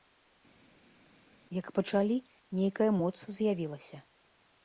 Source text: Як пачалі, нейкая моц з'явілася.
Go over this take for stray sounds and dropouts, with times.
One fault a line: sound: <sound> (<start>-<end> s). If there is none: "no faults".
no faults